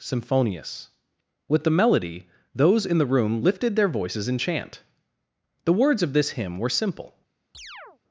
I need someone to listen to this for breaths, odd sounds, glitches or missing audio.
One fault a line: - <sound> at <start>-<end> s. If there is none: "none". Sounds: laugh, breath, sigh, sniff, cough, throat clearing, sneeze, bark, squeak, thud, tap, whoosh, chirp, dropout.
- chirp at 7.5-8.0 s